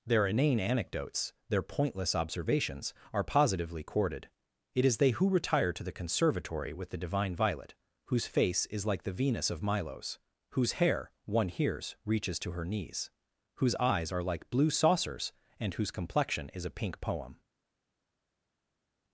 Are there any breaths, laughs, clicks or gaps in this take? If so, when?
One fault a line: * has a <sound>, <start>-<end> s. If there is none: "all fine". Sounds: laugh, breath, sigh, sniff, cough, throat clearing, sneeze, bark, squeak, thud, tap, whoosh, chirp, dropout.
all fine